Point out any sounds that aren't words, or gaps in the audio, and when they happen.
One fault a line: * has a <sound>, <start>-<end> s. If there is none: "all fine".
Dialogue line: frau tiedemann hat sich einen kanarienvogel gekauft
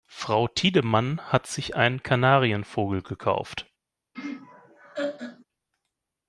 * has a laugh, 4.1-5.4 s